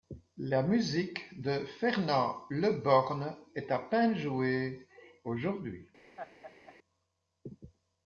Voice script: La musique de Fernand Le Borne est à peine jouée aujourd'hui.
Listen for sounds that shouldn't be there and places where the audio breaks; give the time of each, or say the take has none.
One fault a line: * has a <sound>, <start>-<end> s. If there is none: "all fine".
* has a laugh, 6.2-6.8 s